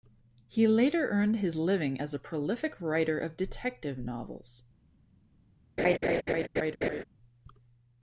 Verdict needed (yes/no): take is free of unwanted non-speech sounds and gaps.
no